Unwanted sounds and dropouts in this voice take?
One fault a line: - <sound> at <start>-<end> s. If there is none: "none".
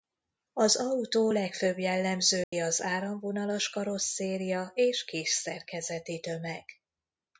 - dropout at 2.4-2.5 s